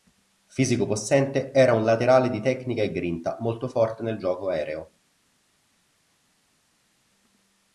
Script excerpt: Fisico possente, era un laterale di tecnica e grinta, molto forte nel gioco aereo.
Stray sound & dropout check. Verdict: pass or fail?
pass